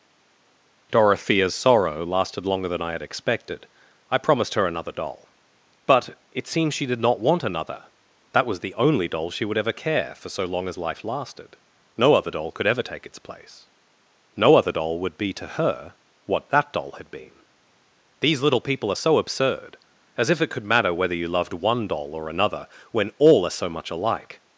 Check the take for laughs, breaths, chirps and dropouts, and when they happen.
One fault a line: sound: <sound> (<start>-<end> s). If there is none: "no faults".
no faults